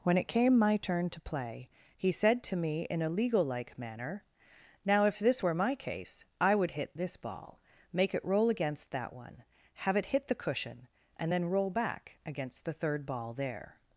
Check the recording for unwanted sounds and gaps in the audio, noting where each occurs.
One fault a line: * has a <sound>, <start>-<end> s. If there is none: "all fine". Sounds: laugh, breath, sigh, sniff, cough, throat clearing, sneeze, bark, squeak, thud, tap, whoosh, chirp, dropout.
all fine